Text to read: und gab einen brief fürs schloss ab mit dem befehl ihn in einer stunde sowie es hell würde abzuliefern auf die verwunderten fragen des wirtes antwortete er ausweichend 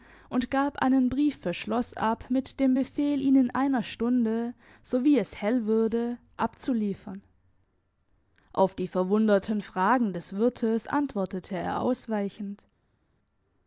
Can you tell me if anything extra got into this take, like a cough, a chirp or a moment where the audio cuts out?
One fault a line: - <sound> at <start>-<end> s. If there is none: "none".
none